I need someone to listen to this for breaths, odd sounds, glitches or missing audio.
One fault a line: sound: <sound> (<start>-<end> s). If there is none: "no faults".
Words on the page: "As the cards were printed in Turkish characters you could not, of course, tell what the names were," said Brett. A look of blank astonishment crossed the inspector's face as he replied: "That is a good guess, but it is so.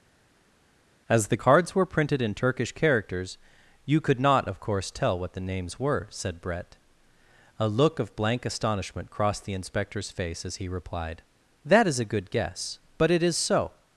no faults